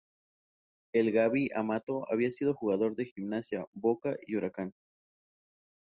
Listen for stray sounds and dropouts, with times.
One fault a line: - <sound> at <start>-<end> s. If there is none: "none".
none